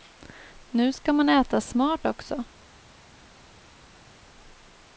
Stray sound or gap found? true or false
false